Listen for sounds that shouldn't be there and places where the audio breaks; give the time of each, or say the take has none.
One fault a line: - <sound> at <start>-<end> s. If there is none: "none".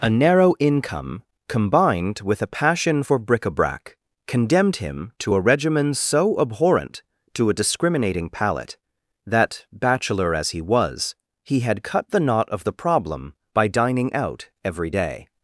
none